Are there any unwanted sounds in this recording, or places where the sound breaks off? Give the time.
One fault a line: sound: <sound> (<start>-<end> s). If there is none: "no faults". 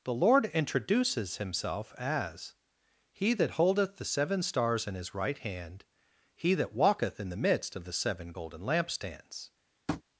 sound: tap (9.9-10.0 s)